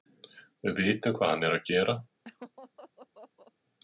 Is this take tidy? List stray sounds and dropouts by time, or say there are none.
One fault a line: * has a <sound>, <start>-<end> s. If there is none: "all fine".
* has a laugh, 2.2-3.5 s